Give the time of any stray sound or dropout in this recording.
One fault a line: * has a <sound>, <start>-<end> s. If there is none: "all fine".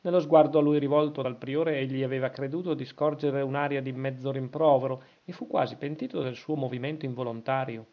all fine